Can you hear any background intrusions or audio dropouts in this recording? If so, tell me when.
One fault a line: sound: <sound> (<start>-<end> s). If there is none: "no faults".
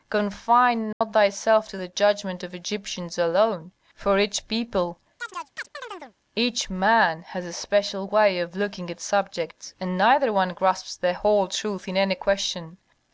sound: dropout (0.9-1.0 s)
sound: chirp (5.2-6.1 s)